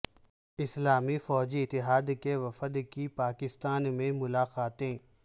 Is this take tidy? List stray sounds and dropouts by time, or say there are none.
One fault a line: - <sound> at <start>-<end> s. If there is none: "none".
none